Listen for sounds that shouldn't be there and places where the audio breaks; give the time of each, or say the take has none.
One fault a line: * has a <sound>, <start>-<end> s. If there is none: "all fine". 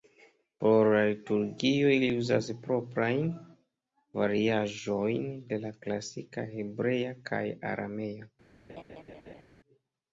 * has a laugh, 8.7-9.4 s